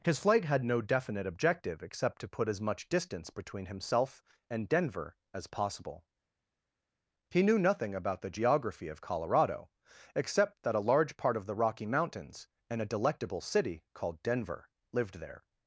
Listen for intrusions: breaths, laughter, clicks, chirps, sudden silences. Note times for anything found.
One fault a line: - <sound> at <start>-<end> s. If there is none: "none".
none